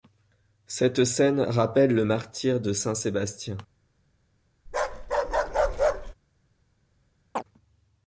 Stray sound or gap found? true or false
true